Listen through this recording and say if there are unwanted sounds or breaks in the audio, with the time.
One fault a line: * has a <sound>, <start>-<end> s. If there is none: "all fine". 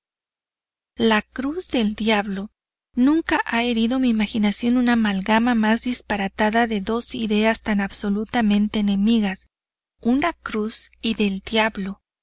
all fine